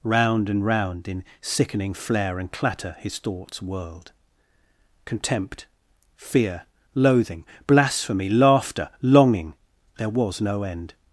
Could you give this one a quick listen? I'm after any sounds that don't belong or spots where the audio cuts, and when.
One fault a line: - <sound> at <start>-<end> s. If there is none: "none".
none